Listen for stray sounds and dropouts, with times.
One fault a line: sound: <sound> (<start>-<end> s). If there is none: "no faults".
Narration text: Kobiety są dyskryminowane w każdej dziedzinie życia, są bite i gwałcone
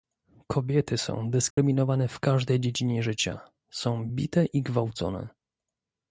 sound: dropout (1.5-1.6 s)